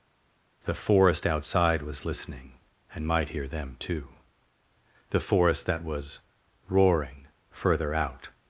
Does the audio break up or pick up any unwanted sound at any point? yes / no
no